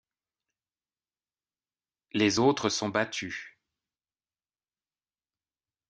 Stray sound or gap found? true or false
false